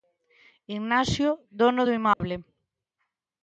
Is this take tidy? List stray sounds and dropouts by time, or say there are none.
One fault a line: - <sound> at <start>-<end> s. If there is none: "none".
- dropout at 2.1-2.2 s